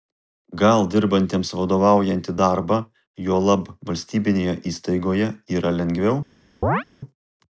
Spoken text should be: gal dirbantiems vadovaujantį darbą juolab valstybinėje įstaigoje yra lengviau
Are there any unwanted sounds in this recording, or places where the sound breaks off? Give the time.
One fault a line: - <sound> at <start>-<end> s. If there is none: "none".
- chirp at 6.6-6.8 s